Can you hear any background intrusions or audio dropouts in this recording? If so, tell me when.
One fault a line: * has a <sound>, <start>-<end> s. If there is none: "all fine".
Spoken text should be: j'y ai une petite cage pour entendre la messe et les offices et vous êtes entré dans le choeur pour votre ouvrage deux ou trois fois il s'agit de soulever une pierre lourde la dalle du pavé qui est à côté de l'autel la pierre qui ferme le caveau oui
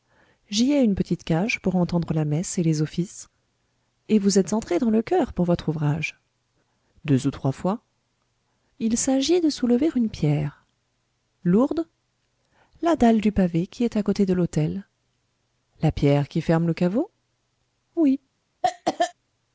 * has a cough, 18.6-19.1 s